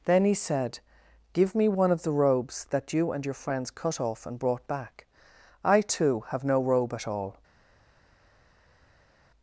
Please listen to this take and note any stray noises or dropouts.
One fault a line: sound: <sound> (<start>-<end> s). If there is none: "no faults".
no faults